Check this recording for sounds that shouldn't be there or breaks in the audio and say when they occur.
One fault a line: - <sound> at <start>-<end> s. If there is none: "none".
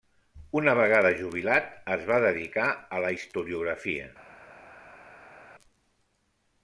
none